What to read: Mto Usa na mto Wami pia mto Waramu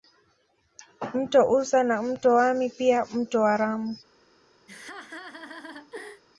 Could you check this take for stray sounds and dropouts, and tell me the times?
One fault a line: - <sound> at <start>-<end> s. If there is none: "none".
- laugh at 4.7-6.2 s